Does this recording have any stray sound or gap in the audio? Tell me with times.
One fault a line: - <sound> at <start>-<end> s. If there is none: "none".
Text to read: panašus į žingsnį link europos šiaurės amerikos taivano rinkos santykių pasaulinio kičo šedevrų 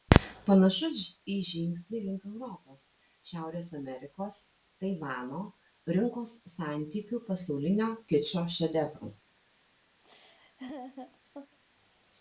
- laugh at 10.0-11.6 s